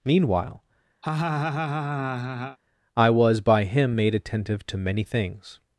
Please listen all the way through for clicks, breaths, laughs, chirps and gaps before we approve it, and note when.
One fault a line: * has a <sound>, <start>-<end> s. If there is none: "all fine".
* has a laugh, 1.0-2.6 s